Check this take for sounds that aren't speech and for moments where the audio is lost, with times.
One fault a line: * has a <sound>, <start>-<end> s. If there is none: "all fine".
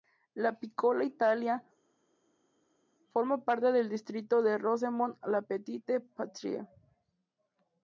all fine